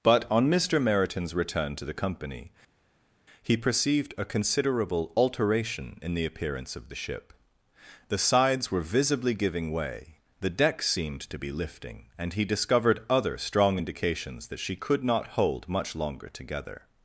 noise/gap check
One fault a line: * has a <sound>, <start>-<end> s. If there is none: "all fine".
all fine